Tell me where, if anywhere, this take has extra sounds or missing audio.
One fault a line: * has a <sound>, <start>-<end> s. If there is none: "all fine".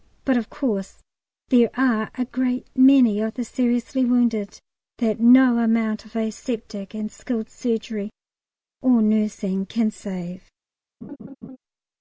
* has a laugh, 11.0-11.6 s